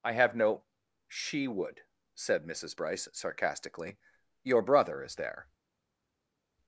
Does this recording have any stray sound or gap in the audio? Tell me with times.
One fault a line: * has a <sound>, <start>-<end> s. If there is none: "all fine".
all fine